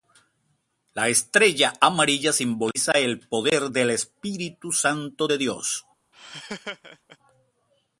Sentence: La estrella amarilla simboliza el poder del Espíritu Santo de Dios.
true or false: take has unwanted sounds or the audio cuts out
true